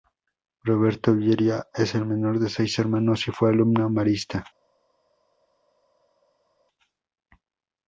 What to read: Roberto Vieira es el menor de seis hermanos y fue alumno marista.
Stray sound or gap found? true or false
false